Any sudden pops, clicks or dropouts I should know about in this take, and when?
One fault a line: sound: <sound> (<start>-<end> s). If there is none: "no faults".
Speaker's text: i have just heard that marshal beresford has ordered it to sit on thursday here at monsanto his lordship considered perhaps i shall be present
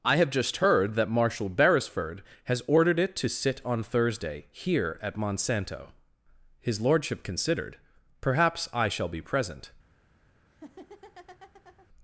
sound: laugh (10.5-11.9 s)